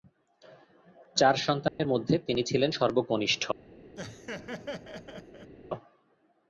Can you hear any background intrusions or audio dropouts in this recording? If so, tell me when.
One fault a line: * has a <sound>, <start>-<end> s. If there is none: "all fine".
* has a dropout, 1.7-1.8 s
* has a laugh, 4.0-5.5 s